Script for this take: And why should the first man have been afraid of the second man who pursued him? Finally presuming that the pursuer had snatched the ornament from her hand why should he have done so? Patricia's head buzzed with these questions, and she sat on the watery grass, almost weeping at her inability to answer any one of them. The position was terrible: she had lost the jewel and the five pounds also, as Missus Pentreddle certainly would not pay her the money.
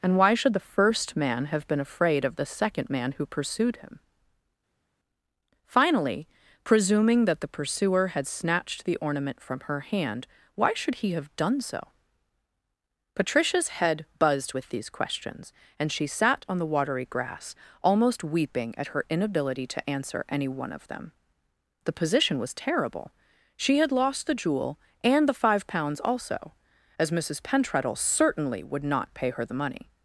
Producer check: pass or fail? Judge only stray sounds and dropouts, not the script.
pass